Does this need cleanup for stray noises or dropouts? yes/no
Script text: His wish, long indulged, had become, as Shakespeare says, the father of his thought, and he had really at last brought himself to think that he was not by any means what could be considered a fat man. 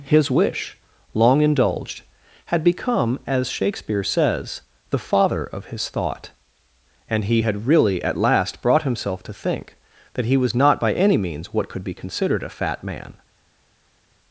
no